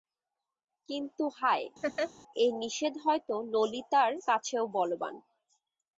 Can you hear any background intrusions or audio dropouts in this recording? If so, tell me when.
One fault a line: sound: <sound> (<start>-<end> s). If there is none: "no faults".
sound: laugh (1.8-2.1 s)